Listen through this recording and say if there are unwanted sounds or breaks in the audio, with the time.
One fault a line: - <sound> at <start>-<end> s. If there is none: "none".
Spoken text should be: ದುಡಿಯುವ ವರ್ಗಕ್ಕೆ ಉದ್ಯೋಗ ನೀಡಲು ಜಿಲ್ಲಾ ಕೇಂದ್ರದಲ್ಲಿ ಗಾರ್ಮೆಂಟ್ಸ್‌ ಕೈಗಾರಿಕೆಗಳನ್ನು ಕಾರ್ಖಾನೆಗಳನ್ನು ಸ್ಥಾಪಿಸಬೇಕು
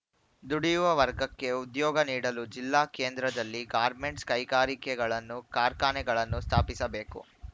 none